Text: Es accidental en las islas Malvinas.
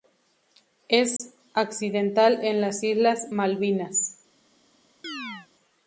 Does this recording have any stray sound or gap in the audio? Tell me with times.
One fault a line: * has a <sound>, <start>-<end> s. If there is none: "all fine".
* has a dropout, 1.2-1.2 s
* has a chirp, 5.0-5.5 s